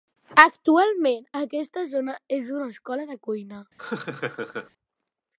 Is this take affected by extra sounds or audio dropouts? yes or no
yes